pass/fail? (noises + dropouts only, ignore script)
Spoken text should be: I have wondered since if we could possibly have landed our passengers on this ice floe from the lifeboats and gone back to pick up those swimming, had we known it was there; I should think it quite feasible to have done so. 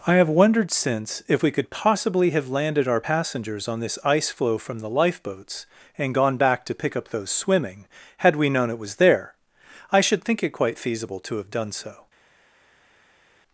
pass